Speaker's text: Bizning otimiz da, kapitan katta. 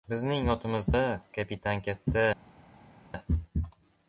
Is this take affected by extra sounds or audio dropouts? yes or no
no